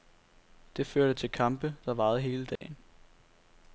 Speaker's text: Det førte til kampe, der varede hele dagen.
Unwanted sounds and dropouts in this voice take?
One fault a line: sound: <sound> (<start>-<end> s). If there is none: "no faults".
sound: dropout (2.6-2.6 s)